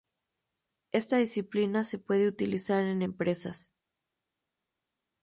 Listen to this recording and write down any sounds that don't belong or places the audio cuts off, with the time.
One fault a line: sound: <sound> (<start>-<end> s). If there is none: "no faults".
no faults